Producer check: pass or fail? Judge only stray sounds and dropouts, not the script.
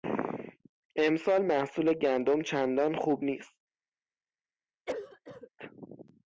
fail